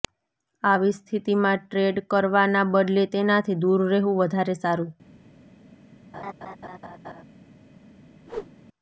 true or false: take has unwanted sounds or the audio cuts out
true